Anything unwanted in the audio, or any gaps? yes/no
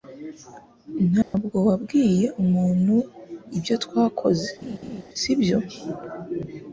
yes